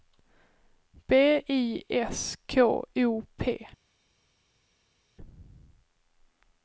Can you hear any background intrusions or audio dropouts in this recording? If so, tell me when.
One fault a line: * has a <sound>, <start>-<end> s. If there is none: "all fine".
all fine